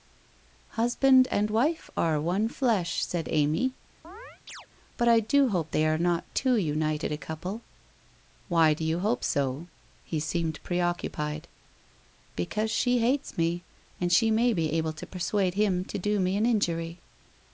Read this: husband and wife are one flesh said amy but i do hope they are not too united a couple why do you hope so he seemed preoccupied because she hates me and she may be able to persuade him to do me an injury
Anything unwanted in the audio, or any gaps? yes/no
yes